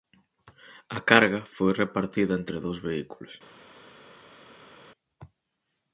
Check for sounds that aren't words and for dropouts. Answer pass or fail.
pass